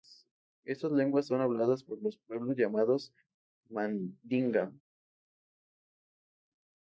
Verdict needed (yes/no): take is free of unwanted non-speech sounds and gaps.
yes